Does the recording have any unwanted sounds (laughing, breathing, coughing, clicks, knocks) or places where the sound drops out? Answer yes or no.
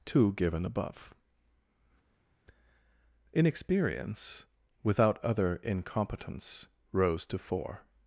no